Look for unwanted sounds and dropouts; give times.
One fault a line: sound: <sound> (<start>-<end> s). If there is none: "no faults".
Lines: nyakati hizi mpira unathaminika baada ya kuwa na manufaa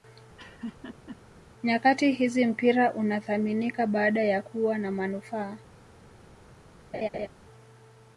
sound: laugh (0.4-1.2 s)
sound: laugh (6.9-7.3 s)